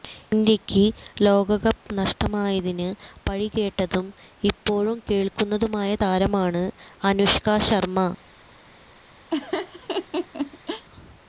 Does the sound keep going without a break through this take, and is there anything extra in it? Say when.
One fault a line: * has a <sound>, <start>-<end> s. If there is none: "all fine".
* has a laugh, 9.3-10.9 s